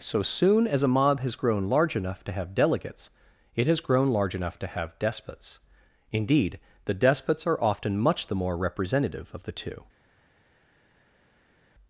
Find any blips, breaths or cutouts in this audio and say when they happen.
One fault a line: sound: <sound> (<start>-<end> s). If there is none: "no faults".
no faults